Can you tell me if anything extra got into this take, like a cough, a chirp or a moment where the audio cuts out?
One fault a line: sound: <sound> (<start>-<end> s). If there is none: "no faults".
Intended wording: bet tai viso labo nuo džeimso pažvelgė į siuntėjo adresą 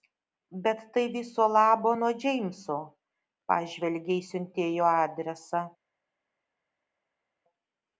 no faults